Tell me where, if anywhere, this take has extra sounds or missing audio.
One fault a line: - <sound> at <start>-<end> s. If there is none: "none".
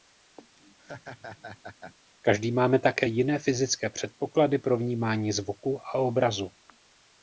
- laugh at 0.6-2.0 s